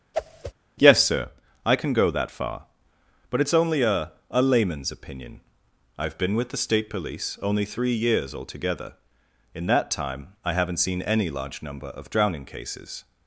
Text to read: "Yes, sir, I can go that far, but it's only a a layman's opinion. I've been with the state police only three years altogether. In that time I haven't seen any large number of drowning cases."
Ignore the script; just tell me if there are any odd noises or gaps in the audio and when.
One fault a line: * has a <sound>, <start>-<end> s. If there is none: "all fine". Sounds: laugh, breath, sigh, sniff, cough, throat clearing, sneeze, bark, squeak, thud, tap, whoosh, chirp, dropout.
* has a whoosh, 0.1-0.5 s